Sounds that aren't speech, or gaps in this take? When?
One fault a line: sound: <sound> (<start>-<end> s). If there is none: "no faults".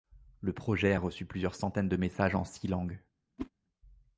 sound: whoosh (3.4-3.5 s)